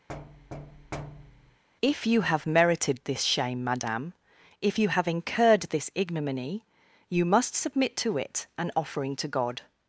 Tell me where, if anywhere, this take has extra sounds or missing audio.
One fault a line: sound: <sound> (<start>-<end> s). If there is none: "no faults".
sound: thud (0.1-1.6 s)